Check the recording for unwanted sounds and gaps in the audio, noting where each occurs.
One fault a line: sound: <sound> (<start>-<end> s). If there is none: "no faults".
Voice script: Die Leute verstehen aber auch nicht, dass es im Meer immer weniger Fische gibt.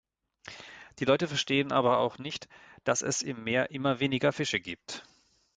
no faults